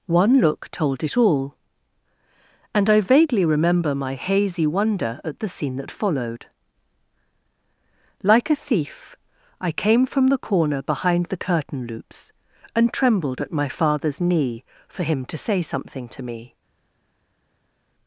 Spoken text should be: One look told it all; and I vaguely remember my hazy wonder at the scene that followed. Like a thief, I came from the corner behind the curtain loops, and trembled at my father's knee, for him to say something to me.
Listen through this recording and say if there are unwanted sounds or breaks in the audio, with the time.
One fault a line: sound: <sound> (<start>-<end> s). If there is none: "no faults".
no faults